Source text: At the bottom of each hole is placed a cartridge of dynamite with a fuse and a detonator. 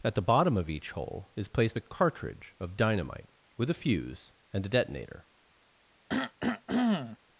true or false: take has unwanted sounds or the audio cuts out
true